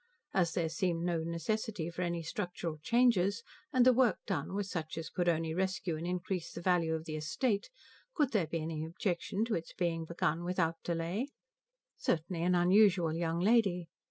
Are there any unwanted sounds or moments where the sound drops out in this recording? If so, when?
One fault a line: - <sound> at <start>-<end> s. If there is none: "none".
none